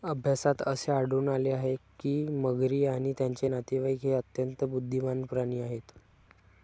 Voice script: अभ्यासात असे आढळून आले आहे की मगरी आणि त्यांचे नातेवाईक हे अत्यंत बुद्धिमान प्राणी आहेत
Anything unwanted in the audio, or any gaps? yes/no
no